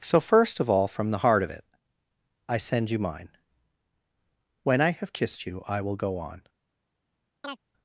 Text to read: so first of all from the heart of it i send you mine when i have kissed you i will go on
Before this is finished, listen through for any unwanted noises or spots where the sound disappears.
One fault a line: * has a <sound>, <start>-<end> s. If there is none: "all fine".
* has a chirp, 7.4-7.6 s